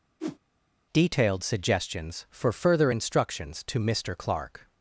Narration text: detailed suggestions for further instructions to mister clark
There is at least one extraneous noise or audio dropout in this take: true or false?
true